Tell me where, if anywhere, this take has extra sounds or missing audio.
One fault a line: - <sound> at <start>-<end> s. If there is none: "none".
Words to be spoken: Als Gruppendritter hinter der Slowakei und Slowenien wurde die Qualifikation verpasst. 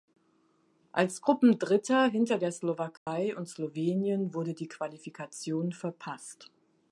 - dropout at 3.0-3.1 s